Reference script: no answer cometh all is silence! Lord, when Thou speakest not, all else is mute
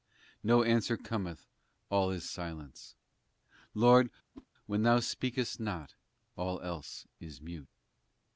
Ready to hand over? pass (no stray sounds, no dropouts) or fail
fail